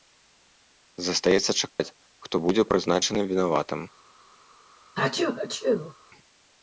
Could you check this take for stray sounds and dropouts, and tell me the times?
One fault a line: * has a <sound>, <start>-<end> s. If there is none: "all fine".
* has a dropout, 1.7-1.8 s
* has a sneeze, 4.9-5.9 s